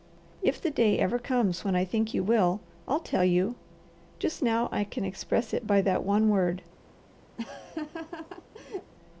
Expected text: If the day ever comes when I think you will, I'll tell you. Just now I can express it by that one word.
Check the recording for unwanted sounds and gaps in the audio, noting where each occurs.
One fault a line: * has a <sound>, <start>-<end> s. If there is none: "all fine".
* has a laugh, 7.4-8.9 s